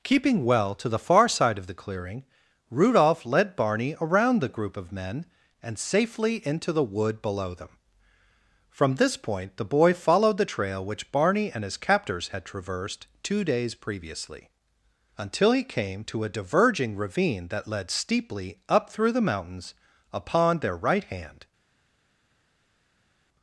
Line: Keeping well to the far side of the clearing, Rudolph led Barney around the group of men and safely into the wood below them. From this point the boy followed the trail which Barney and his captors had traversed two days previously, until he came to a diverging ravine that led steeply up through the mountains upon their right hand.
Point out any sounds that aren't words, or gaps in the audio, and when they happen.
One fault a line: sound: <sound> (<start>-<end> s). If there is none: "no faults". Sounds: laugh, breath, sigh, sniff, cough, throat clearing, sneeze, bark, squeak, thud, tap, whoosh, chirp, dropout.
no faults